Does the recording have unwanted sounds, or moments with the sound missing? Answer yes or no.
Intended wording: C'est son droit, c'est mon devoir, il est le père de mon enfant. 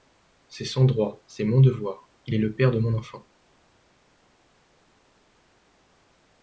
no